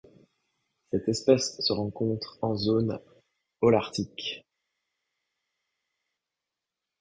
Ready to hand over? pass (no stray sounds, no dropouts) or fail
pass